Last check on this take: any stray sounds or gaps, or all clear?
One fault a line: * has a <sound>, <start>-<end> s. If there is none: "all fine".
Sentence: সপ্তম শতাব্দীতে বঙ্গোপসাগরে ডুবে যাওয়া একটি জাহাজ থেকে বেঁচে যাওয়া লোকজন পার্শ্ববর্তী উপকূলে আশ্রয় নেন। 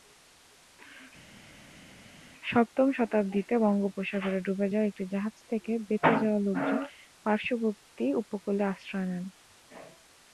all fine